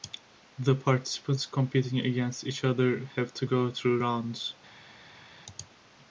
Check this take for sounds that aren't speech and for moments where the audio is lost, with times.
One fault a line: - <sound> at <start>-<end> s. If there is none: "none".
none